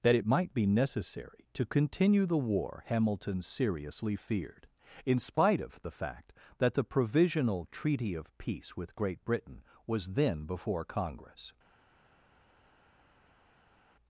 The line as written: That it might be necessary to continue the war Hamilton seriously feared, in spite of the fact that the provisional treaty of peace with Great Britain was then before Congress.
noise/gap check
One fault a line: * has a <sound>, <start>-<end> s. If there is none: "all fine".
all fine